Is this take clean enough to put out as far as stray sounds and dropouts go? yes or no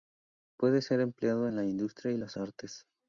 yes